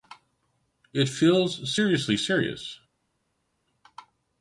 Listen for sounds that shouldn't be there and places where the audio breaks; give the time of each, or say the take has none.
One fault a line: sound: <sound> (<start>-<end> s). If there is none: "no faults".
no faults